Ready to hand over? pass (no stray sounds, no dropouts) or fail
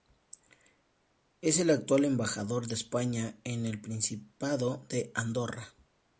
pass